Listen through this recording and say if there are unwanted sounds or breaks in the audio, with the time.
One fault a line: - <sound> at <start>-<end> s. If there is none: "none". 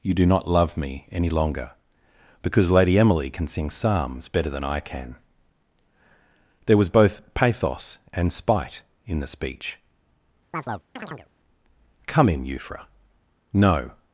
- chirp at 10.5-11.3 s